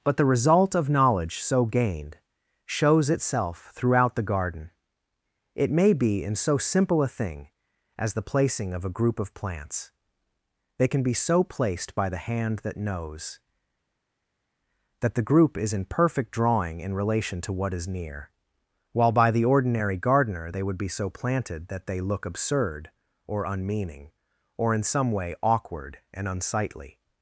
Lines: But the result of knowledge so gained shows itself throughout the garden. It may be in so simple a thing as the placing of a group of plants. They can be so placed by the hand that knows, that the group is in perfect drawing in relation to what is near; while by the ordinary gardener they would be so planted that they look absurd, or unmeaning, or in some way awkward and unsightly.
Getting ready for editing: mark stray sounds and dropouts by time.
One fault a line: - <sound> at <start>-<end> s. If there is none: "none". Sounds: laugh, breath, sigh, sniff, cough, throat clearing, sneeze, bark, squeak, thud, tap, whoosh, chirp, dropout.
none